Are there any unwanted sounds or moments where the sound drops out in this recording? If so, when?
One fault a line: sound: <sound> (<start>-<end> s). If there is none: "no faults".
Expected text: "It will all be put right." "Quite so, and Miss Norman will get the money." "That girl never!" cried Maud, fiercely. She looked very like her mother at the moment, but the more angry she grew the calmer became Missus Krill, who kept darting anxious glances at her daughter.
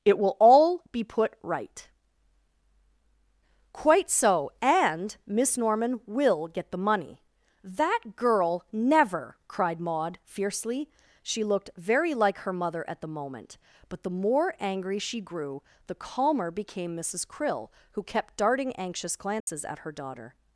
sound: dropout (19.4-19.5 s)